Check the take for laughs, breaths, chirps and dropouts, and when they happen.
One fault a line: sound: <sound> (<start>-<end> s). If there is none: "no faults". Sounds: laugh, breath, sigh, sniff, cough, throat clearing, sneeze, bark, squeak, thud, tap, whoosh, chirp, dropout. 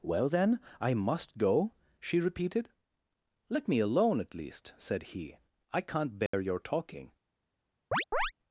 sound: dropout (6.3-6.3 s)
sound: chirp (7.9-8.3 s)